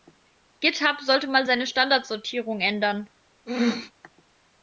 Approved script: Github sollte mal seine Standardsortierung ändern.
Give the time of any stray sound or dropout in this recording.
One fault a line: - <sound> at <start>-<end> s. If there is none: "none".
- throat clearing at 3.5-3.9 s